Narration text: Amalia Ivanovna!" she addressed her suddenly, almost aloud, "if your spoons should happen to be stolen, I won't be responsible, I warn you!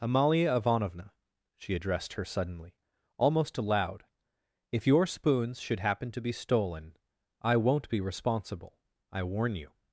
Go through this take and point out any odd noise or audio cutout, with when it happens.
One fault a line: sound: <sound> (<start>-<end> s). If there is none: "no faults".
no faults